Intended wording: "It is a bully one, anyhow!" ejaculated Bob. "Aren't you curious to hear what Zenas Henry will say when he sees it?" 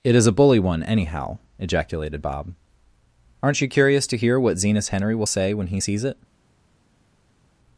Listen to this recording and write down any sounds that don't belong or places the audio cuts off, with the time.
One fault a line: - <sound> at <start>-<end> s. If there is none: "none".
none